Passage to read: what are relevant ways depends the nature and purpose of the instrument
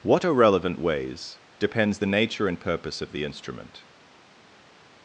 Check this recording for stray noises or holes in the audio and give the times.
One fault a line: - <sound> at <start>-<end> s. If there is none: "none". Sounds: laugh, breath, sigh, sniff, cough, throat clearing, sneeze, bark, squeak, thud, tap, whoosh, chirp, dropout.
none